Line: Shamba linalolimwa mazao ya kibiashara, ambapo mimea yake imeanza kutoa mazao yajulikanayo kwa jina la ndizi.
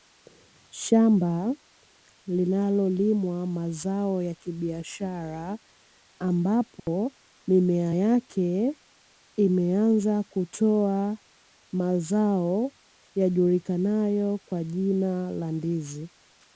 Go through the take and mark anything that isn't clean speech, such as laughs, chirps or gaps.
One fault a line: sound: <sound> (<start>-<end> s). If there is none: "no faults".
sound: dropout (6.8-6.9 s)